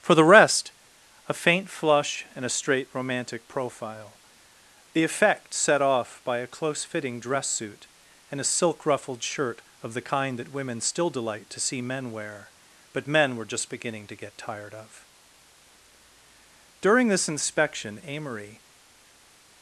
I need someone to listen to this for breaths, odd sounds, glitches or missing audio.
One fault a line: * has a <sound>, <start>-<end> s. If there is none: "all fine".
all fine